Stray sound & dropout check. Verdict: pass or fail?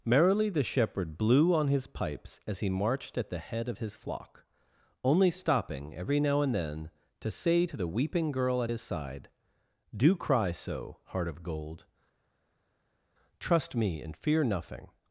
pass